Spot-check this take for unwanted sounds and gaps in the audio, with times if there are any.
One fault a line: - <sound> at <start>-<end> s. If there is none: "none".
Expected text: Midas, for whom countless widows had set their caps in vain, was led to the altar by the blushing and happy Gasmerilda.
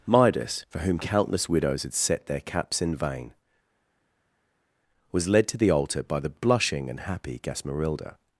none